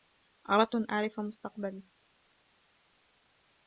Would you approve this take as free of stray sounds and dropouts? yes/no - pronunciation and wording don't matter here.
yes